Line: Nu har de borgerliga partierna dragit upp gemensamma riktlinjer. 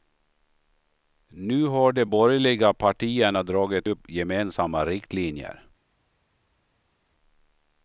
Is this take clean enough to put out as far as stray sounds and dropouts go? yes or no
yes